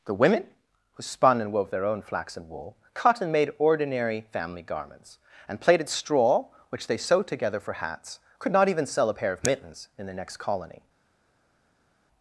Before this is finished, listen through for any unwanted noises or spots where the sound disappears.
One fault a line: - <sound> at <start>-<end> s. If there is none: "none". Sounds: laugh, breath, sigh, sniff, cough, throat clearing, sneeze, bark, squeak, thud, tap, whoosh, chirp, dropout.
none